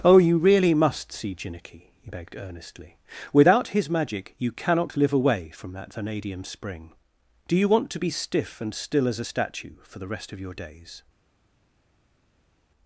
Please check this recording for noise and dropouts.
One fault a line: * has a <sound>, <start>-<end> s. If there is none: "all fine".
all fine